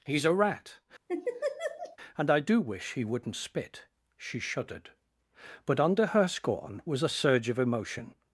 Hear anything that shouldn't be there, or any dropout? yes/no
yes